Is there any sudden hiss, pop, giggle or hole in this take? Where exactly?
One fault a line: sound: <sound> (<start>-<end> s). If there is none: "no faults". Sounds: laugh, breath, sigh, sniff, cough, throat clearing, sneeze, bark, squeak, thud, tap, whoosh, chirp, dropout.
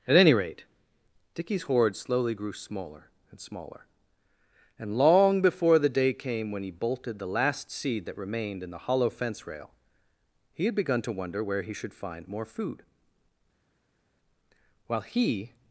no faults